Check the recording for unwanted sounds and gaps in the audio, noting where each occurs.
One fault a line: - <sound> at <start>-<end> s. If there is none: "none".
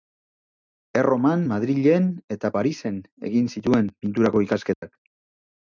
- dropout at 4.7-4.8 s